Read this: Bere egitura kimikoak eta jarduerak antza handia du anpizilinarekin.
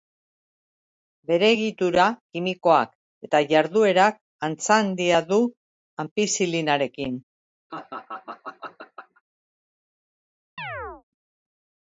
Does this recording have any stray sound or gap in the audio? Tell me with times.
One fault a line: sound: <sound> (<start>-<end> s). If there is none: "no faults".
sound: laugh (7.7-9.2 s)
sound: chirp (10.6-11.0 s)